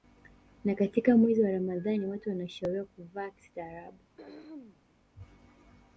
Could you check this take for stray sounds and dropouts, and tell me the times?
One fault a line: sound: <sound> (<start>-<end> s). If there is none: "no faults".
sound: throat clearing (4.2-4.8 s)